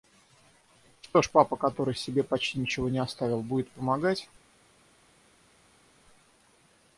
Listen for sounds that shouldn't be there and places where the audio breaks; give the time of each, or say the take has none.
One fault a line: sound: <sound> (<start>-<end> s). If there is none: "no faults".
no faults